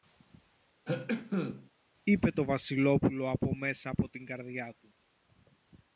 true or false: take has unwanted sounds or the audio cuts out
true